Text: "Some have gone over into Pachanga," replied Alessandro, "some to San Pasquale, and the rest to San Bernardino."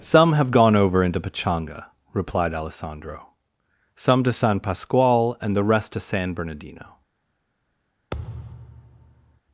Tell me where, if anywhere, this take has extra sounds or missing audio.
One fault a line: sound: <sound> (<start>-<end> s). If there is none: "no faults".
sound: thud (8.1-9.4 s)